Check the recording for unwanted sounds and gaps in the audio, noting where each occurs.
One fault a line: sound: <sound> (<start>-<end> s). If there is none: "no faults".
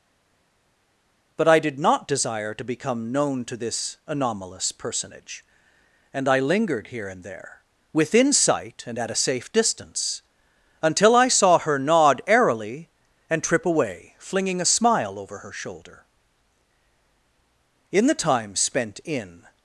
no faults